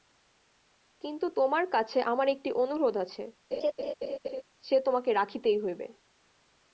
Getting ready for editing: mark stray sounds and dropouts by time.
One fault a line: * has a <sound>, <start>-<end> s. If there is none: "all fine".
* has a laugh, 3.5-4.4 s